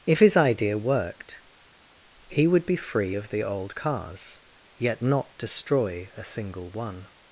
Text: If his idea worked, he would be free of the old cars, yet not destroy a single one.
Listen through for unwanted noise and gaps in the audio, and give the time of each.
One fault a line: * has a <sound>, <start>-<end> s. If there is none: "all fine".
all fine